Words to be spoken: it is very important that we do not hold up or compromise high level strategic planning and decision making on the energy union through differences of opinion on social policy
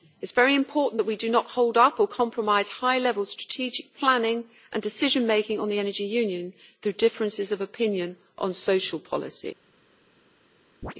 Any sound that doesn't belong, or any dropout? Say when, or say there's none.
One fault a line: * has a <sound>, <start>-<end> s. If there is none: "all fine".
* has a chirp, 10.8-10.9 s